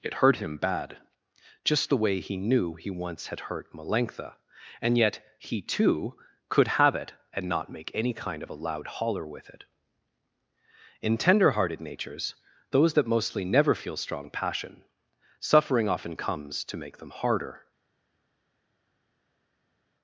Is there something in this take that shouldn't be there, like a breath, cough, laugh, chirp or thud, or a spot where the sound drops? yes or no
no